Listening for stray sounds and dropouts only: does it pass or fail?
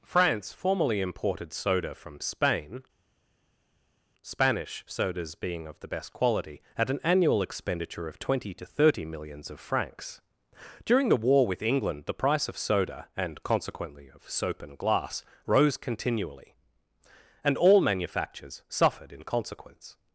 pass